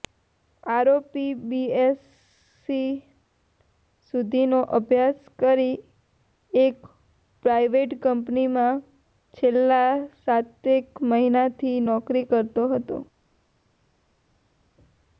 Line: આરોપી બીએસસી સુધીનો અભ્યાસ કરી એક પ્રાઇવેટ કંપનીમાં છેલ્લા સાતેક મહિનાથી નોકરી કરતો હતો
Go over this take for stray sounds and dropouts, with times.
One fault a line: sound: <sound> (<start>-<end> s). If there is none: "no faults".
no faults